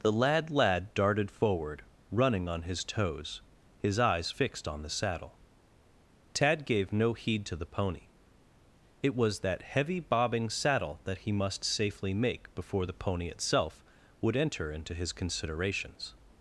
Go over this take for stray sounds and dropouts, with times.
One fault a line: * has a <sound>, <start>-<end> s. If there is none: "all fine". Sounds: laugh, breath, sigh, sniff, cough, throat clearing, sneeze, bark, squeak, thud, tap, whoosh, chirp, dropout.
all fine